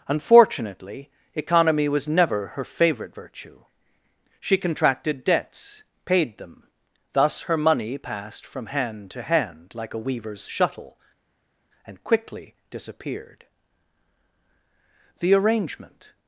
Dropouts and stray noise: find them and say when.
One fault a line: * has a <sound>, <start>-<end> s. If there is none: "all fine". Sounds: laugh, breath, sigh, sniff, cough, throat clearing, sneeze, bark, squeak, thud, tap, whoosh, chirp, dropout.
all fine